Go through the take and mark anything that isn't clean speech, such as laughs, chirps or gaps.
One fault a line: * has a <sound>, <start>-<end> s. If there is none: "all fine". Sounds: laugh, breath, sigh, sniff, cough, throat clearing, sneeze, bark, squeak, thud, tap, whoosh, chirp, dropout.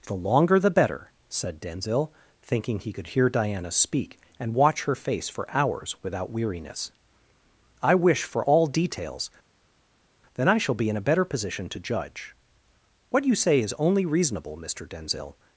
all fine